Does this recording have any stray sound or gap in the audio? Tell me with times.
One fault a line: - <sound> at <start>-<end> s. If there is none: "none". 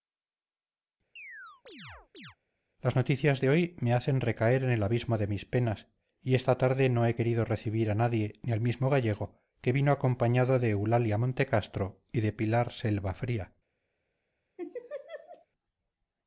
- chirp at 1.2-2.4 s
- laugh at 14.6-15.5 s